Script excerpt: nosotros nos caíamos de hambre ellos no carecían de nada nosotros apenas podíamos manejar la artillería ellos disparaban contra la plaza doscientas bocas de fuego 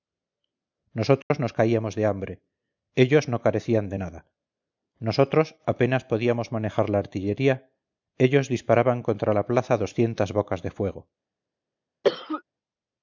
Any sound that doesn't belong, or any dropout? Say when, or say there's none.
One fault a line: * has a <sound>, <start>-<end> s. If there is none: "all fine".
* has a dropout, 1.2-1.3 s
* has a cough, 12.0-12.4 s